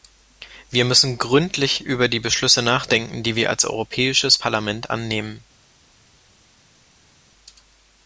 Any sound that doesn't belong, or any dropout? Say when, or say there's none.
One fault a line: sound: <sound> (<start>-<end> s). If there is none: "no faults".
no faults